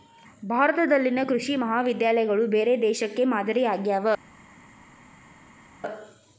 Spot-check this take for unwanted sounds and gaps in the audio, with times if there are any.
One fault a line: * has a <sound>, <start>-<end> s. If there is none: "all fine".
all fine